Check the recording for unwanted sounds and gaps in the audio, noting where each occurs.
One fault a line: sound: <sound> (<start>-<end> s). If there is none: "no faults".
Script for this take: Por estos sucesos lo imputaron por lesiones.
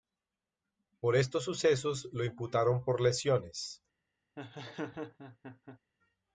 sound: laugh (4.4-5.8 s)